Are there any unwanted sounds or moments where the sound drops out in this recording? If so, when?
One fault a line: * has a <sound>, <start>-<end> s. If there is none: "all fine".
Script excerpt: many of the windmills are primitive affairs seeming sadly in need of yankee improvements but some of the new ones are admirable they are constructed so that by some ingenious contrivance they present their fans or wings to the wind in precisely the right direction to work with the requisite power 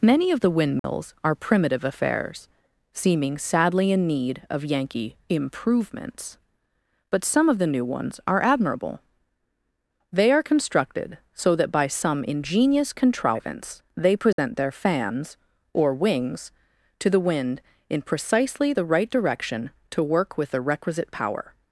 * has a dropout, 0.8-0.8 s
* has a dropout, 14.3-14.4 s